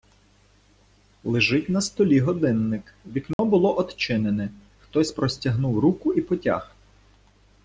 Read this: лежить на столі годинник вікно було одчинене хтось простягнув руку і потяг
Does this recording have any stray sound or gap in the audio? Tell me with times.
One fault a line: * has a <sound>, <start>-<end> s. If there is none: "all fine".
* has a dropout, 3.3-3.4 s